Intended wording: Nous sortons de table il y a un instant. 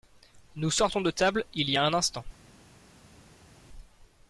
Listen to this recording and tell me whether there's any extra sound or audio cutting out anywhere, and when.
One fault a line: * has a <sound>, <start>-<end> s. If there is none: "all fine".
all fine